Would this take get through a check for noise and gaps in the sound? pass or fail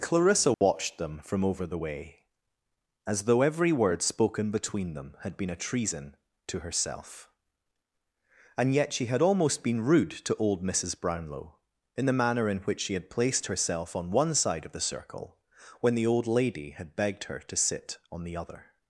fail